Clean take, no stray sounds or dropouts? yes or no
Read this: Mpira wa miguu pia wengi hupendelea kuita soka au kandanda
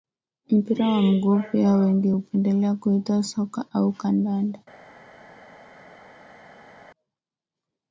yes